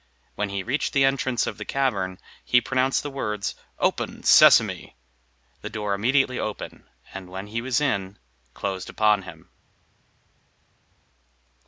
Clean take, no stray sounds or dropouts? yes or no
yes